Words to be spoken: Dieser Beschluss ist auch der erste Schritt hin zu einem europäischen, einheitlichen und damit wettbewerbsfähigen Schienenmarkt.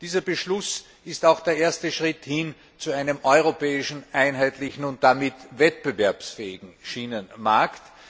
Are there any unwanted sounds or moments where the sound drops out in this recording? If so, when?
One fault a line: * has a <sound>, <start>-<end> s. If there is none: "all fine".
all fine